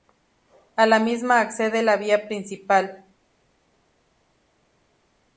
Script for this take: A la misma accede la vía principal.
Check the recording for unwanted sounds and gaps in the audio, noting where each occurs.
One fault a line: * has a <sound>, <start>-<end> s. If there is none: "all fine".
all fine